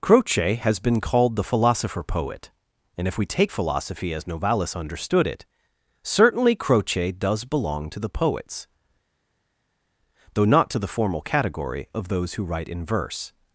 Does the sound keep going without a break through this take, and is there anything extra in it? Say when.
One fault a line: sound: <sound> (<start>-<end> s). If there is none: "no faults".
no faults